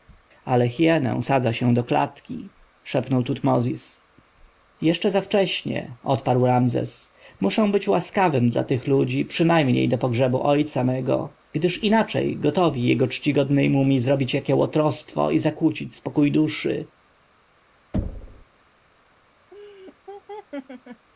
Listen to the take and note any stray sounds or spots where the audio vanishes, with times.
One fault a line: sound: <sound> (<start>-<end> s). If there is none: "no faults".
sound: thud (17.9-18.5 s)
sound: laugh (19.5-21.1 s)